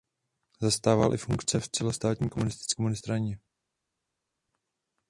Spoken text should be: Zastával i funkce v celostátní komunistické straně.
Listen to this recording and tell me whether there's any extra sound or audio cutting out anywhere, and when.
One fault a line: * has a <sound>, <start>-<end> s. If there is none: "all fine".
all fine